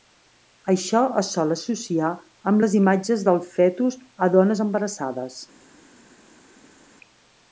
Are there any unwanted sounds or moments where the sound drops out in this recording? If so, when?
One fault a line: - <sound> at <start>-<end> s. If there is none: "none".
none